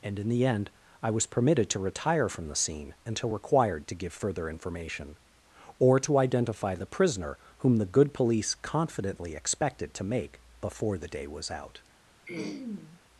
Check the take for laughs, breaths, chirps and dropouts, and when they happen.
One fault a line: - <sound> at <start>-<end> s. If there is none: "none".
- throat clearing at 12.3-13.0 s